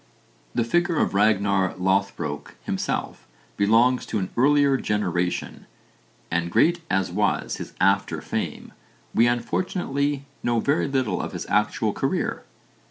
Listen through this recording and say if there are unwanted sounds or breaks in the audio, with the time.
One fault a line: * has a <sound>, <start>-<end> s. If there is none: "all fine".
all fine